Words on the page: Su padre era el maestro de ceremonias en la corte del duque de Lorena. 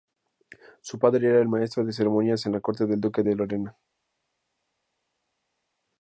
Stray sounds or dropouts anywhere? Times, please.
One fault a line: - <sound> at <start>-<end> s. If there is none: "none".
none